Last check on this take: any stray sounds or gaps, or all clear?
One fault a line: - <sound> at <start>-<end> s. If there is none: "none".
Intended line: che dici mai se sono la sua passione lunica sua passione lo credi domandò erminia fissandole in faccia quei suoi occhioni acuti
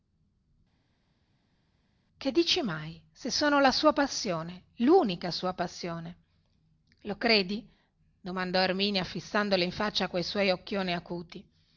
none